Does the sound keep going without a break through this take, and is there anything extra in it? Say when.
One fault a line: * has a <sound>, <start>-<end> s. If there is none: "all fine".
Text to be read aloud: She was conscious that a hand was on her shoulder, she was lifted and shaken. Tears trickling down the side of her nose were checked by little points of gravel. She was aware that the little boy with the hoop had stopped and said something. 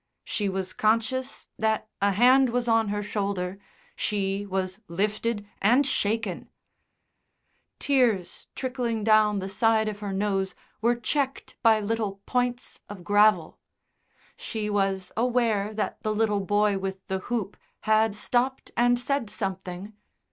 all fine